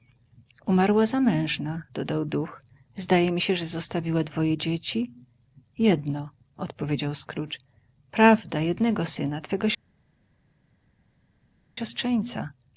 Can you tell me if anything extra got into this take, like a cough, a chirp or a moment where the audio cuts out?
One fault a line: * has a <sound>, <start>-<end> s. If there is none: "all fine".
all fine